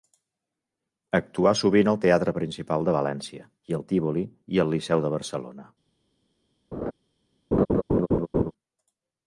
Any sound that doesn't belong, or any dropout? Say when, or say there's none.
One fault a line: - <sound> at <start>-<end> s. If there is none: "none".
- laugh at 6.7-6.9 s
- laugh at 7.5-8.5 s